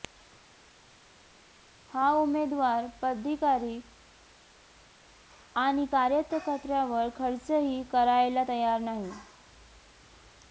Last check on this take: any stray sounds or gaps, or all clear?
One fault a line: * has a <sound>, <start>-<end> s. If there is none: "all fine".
all fine